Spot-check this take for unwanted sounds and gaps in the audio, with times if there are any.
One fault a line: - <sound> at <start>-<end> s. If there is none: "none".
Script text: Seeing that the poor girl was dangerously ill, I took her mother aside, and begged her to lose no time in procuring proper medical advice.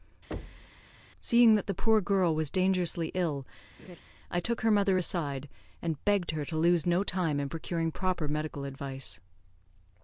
- thud at 0.3-0.8 s
- laugh at 3.8-4.0 s